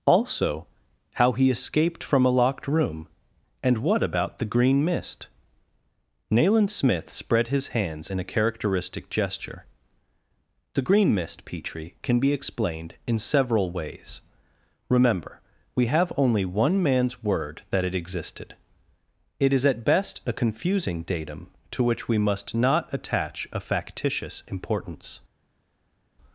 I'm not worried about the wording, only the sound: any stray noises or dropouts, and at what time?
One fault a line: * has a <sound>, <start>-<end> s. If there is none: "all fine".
all fine